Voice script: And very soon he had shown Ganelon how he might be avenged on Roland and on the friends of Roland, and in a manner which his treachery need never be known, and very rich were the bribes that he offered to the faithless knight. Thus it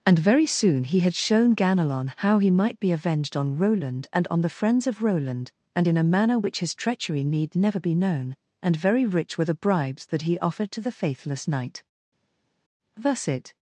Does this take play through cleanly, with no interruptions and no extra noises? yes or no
yes